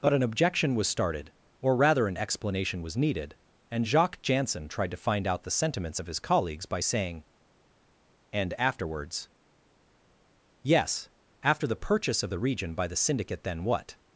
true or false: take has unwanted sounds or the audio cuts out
false